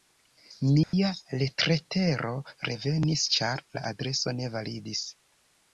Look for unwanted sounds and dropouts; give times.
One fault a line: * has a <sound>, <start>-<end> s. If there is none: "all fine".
* has a dropout, 0.8-0.9 s